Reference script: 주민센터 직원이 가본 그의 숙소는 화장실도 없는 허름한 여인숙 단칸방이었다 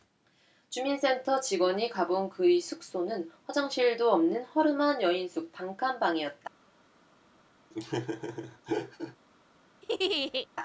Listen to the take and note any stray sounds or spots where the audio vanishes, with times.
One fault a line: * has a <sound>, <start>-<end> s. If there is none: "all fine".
* has a laugh, 7.7-9.2 s
* has a laugh, 9.8-10.5 s